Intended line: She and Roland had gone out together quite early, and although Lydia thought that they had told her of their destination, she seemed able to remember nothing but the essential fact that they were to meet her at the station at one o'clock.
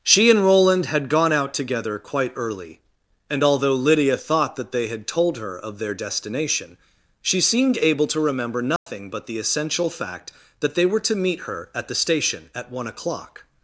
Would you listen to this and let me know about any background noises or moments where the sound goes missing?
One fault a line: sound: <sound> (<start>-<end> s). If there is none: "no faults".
sound: dropout (8.8-8.9 s)